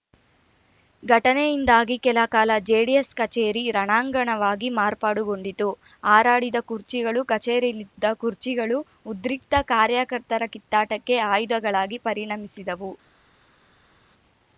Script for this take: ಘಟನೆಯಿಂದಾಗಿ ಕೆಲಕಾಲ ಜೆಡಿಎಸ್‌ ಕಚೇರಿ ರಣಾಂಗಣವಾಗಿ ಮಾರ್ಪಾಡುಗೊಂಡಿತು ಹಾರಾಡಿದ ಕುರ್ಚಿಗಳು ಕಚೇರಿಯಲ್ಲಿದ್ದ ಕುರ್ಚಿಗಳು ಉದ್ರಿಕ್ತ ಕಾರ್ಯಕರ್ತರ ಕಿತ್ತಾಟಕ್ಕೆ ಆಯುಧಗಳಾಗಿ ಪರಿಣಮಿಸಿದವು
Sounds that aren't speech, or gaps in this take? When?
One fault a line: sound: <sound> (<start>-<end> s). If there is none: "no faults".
no faults